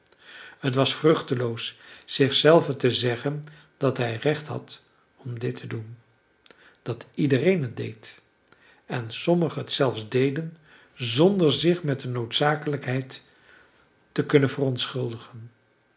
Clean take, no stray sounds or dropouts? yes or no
yes